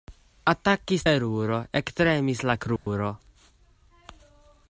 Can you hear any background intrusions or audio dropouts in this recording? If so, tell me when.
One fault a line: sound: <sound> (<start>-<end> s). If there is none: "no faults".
sound: dropout (2.8-2.9 s)